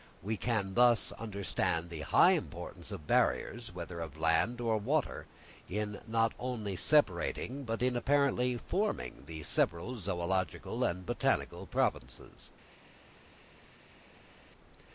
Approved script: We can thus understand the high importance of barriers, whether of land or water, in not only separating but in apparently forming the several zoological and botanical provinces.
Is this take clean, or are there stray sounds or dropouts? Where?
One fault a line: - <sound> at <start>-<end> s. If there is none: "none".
none